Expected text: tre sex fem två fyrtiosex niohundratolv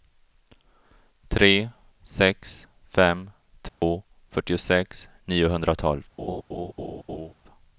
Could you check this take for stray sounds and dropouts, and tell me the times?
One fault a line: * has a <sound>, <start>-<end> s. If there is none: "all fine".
* has a dropout, 3.7-3.8 s
* has a laugh, 6.2-7.3 s